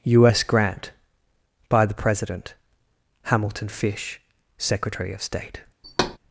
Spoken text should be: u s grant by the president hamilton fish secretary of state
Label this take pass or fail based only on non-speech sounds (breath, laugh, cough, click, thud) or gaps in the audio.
fail